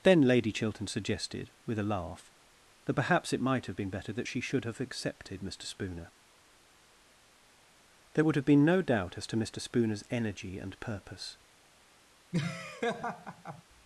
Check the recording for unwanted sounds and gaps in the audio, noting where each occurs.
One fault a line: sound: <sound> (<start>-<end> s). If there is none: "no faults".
sound: laugh (12.3-13.6 s)